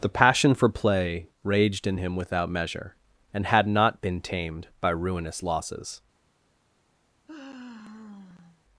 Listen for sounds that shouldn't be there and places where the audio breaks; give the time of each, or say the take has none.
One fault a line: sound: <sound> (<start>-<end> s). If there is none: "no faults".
sound: sigh (7.3-8.6 s)